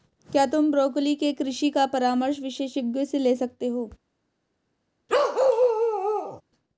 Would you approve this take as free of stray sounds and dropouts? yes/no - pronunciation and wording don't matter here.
no